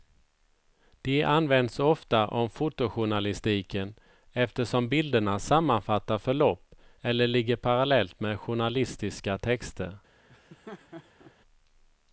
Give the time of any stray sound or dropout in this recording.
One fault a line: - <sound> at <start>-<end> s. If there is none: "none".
- laugh at 10.3-11.3 s